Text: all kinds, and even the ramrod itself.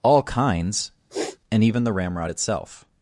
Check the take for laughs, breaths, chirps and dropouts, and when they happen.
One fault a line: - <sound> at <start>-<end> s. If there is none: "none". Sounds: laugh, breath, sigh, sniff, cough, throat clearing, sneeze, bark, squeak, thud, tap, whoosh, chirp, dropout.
- sniff at 1.1-1.4 s